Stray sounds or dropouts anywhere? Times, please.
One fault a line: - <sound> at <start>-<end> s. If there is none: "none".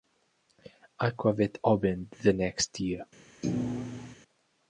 - thud at 3.4-4.2 s